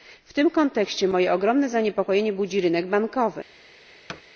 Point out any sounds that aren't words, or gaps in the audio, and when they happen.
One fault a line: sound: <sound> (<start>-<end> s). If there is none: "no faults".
sound: thud (4.1-4.2 s)